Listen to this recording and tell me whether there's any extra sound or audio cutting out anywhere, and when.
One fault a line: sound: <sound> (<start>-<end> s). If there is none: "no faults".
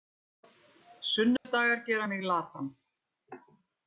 sound: dropout (1.4-1.5 s)